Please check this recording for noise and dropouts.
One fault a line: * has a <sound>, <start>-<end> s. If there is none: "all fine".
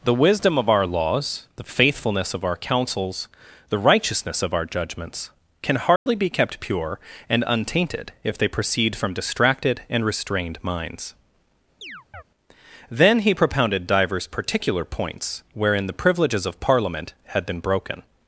* has a dropout, 6.0-6.1 s
* has a chirp, 11.8-12.2 s